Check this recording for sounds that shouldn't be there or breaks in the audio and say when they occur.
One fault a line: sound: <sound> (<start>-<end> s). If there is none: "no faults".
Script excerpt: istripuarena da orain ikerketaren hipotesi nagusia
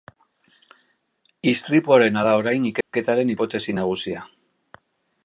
sound: dropout (2.8-2.9 s)